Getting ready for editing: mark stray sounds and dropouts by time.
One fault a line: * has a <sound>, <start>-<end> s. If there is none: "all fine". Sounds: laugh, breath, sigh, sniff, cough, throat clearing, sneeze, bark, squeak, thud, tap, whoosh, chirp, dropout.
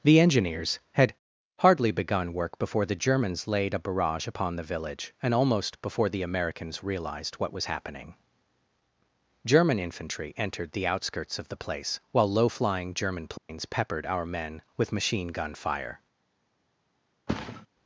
* has a dropout, 13.4-13.5 s
* has a thud, 17.3-17.7 s